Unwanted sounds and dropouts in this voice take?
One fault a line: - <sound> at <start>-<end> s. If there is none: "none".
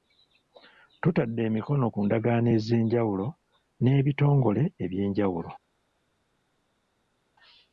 none